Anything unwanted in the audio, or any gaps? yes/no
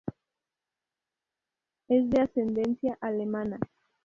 no